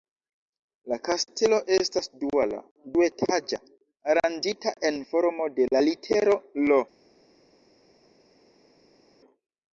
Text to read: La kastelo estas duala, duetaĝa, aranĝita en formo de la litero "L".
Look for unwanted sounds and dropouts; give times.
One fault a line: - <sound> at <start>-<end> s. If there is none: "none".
none